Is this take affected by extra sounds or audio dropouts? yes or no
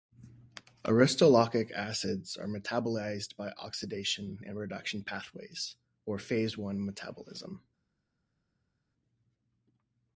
no